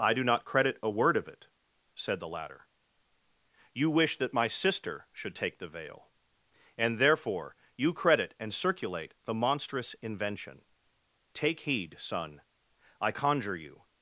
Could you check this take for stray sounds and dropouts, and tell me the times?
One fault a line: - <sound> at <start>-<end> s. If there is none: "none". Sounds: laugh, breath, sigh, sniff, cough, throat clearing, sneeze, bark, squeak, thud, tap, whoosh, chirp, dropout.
none